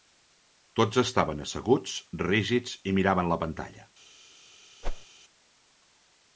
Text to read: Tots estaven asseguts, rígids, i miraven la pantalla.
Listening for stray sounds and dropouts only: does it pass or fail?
fail